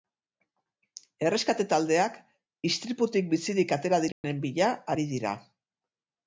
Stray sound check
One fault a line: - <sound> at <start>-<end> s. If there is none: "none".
- dropout at 4.1-4.2 s